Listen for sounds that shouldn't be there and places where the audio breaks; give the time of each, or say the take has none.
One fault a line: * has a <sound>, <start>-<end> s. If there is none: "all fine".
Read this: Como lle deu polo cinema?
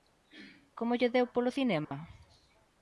* has a dropout, 1.8-1.9 s